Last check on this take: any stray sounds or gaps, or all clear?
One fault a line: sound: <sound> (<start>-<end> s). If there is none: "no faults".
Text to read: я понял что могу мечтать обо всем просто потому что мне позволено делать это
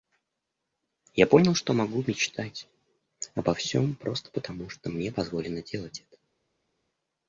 no faults